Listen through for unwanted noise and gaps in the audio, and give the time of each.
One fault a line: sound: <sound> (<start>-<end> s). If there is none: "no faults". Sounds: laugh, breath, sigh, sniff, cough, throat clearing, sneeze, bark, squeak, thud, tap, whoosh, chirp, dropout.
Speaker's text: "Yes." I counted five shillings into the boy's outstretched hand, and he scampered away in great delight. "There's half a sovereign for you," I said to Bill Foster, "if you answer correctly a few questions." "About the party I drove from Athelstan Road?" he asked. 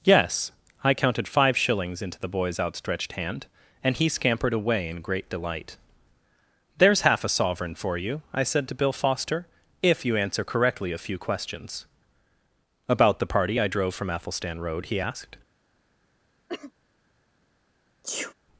sound: cough (16.5-16.7 s)
sound: sneeze (18.0-18.3 s)